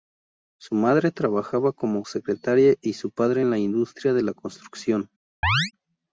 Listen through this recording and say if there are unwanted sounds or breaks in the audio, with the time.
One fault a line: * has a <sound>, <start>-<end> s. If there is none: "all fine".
* has a chirp, 5.4-5.7 s